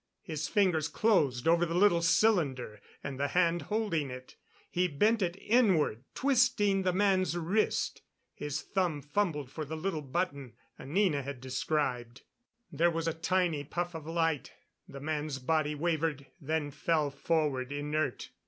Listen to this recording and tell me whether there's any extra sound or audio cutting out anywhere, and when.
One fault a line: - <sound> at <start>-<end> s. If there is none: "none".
none